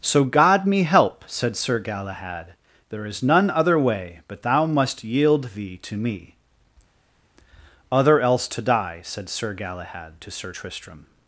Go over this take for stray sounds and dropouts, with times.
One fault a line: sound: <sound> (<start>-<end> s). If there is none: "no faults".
no faults